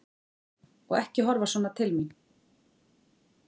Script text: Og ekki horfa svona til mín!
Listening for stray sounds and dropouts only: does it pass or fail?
pass